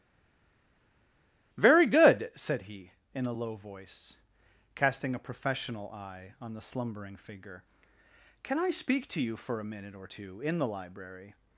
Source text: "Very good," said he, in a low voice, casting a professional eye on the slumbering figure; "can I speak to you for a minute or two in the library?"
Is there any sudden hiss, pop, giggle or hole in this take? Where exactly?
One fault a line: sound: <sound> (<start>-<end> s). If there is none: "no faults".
no faults